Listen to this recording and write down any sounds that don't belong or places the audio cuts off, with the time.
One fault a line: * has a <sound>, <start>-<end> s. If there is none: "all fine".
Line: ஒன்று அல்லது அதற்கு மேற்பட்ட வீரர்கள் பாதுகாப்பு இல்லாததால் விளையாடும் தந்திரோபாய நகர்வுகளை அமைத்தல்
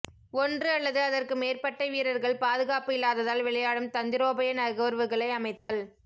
* has a dropout, 5.6-5.7 s